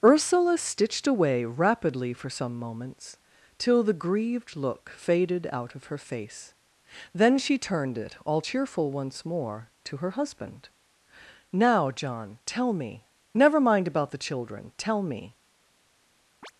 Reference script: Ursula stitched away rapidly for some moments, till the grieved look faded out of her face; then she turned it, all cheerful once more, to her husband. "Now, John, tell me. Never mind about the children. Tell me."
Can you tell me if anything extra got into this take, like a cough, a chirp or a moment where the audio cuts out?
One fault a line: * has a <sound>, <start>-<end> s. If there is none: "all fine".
* has a chirp, 16.4-16.5 s